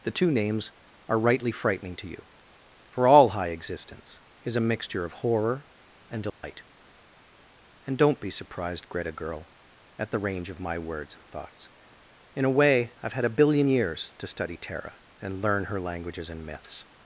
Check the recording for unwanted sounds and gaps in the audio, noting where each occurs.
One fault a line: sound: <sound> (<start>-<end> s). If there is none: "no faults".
sound: dropout (6.3-6.4 s)